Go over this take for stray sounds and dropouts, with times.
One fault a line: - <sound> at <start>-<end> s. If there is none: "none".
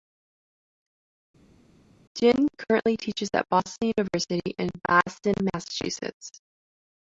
none